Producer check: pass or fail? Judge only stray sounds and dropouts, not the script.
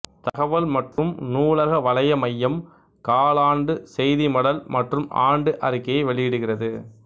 fail